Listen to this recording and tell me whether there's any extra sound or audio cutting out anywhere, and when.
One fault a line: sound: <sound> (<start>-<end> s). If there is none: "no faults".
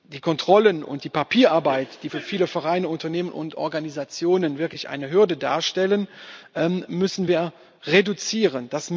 no faults